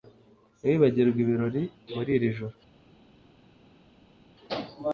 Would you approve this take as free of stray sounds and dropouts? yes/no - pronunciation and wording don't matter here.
yes